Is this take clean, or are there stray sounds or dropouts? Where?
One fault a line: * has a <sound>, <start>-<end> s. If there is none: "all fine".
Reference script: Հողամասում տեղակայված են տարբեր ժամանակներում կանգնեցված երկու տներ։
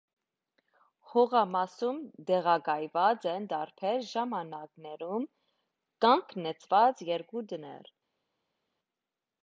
all fine